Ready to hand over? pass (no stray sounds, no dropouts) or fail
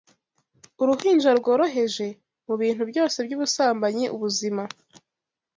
pass